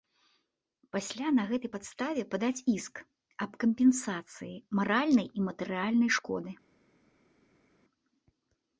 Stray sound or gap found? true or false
false